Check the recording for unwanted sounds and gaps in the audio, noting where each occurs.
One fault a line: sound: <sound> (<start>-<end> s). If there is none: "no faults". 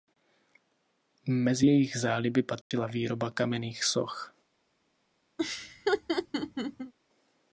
sound: dropout (2.6-2.7 s)
sound: laugh (5.4-6.9 s)